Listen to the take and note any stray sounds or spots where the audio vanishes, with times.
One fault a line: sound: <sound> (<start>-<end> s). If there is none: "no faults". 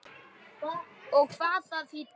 no faults